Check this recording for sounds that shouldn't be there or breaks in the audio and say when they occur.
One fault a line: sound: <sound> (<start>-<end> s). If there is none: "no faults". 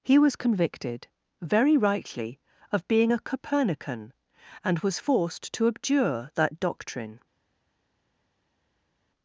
no faults